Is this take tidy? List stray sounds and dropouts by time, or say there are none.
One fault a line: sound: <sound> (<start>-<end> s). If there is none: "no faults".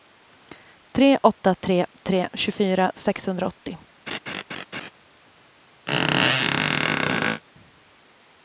sound: laugh (4.1-4.9 s)
sound: squeak (5.9-7.4 s)